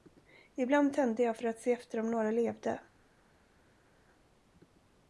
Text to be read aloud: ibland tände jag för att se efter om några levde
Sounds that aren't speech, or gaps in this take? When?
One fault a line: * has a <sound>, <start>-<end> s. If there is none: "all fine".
all fine